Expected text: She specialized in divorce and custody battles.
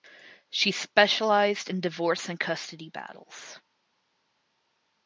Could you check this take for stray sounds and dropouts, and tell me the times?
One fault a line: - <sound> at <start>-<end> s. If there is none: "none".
none